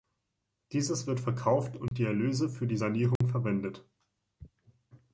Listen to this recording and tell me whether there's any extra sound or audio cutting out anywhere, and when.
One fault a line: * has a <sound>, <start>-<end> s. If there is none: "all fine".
* has a dropout, 1.9-1.9 s
* has a dropout, 3.2-3.2 s